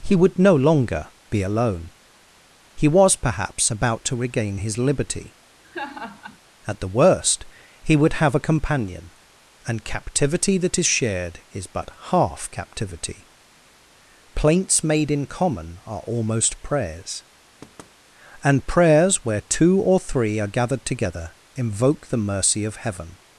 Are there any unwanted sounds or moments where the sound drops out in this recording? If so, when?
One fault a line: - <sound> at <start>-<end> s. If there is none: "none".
- laugh at 5.6-6.4 s
- thud at 17.6-18.0 s